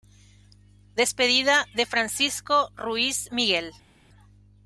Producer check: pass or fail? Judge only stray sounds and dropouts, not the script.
pass